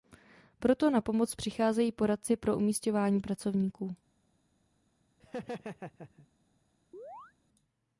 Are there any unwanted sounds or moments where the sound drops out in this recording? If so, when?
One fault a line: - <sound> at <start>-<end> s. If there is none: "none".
- laugh at 5.2-6.3 s
- chirp at 6.9-7.3 s